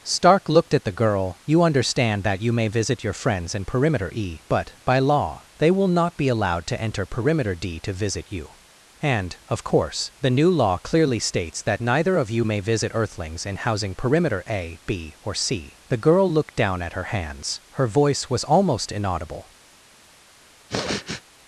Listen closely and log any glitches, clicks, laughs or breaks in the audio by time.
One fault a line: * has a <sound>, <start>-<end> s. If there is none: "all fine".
* has a sniff, 20.7-21.2 s